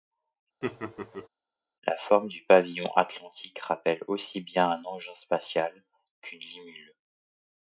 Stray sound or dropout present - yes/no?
yes